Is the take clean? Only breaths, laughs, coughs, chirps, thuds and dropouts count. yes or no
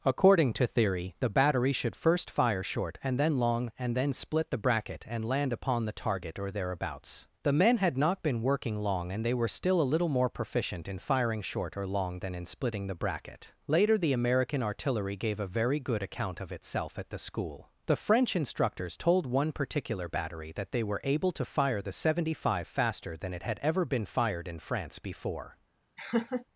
no